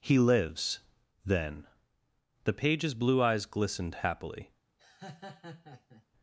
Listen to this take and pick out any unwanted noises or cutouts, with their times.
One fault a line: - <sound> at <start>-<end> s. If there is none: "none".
- laugh at 4.8-6.1 s